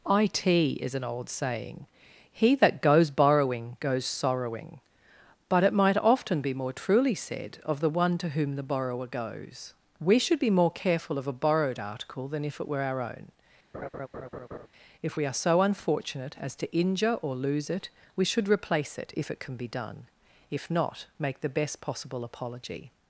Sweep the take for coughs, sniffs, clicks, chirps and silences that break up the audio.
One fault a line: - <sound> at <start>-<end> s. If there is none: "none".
- laugh at 13.7-14.7 s